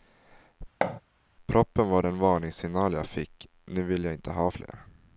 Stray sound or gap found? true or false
true